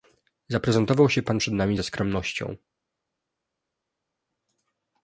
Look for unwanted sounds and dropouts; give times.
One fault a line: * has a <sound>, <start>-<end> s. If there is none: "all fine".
all fine